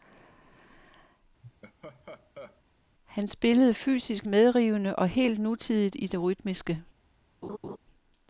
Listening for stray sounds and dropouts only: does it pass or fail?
fail